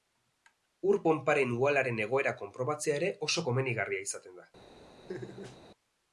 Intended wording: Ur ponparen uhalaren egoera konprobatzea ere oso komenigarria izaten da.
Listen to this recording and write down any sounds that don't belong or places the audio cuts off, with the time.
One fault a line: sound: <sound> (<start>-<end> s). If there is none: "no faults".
sound: laugh (5.1-5.6 s)